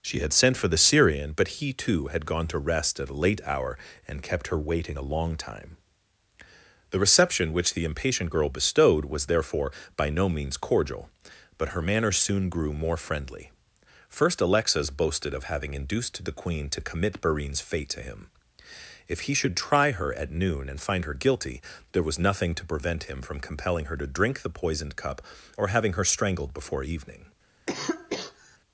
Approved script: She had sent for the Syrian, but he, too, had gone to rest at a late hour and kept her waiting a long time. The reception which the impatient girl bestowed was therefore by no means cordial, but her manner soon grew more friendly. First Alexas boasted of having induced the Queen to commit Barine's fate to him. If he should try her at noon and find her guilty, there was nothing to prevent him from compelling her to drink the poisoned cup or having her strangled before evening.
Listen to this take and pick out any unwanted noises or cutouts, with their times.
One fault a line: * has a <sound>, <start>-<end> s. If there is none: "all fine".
* has a cough, 27.7-28.6 s